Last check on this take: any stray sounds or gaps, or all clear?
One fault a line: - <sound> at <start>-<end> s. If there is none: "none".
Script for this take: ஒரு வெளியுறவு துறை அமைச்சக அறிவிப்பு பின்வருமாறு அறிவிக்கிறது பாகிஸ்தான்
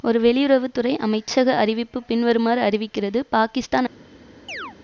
- chirp at 4.5-4.8 s